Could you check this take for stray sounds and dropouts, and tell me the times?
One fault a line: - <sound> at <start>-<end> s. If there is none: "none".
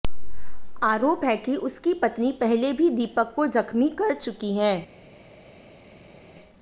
none